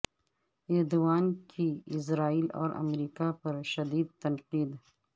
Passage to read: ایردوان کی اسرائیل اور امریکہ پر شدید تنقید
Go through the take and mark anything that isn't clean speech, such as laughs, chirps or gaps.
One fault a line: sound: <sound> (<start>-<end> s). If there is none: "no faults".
no faults